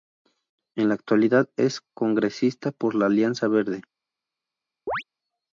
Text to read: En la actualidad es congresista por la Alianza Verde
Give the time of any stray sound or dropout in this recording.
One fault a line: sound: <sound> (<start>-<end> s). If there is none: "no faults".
sound: chirp (4.9-5.0 s)